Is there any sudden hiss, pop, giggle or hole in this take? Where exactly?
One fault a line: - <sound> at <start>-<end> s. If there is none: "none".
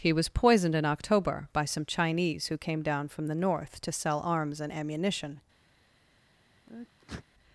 - sneeze at 6.7-7.3 s